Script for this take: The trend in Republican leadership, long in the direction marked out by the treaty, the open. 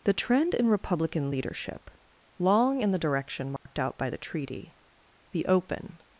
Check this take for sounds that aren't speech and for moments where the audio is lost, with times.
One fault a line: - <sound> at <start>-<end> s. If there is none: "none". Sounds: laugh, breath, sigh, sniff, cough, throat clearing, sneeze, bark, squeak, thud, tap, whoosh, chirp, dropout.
- dropout at 3.6-3.7 s